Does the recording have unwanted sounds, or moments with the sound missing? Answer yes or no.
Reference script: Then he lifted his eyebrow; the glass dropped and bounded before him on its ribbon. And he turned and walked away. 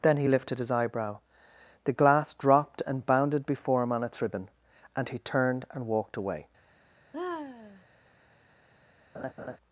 yes